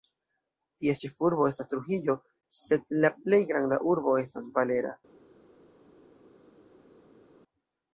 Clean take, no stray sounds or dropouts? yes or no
yes